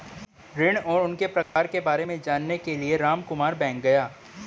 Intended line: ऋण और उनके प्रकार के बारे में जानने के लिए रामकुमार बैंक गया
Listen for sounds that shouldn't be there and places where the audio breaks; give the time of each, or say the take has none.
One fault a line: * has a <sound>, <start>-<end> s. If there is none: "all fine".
* has a dropout, 1.4-1.6 s